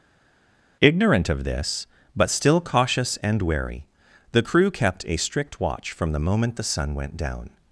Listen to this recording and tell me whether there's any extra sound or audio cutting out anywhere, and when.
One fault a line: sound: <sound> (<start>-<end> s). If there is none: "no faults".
no faults